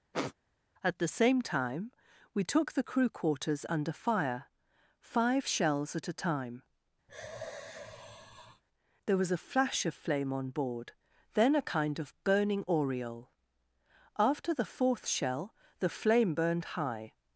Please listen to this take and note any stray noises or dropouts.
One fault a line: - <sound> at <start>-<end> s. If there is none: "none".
- sniff at 0.1-0.3 s
- sigh at 7.1-8.6 s